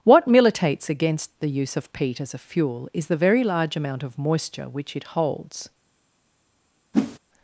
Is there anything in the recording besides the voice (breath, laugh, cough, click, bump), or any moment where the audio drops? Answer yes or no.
yes